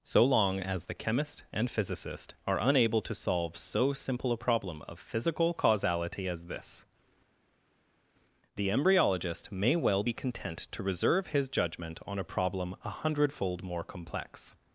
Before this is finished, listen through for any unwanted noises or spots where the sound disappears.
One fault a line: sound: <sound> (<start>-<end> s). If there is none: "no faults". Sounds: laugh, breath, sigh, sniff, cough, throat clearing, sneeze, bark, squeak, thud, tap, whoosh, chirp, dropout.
no faults